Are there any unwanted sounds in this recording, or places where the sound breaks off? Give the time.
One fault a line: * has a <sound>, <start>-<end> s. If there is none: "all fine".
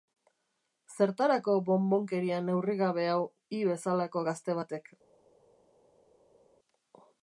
all fine